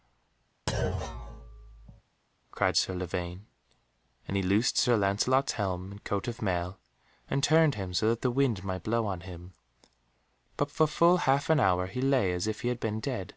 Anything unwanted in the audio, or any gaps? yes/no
yes